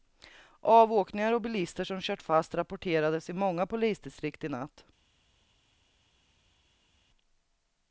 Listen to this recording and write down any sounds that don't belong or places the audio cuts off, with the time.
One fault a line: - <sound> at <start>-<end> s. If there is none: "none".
none